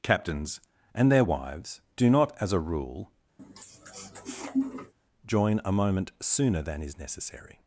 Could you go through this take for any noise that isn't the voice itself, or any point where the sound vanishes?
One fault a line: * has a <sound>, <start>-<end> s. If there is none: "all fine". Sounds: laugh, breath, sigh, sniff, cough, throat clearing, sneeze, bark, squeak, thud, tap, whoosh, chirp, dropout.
* has a sniff, 3.4-4.9 s